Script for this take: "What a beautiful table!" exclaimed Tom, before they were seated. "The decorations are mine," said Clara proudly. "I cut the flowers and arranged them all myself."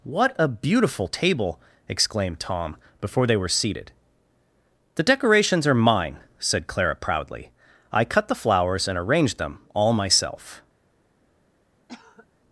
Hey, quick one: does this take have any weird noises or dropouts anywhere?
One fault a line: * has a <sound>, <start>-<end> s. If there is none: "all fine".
* has a cough, 11.9-12.3 s